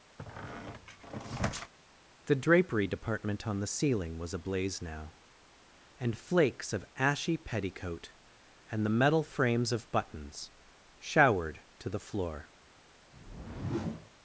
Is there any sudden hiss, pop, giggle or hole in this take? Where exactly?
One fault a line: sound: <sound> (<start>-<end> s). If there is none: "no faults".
sound: squeak (0.2-1.7 s)
sound: whoosh (13.1-14.1 s)